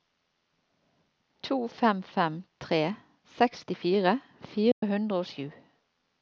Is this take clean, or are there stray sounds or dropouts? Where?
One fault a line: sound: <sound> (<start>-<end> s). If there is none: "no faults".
sound: dropout (4.7-4.8 s)